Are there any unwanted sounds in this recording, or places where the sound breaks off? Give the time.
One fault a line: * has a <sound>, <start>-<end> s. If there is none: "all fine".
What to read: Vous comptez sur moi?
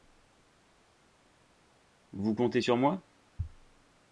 all fine